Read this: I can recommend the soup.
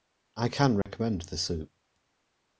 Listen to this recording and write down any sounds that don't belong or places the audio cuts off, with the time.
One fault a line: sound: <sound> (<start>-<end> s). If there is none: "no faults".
sound: dropout (0.8-0.9 s)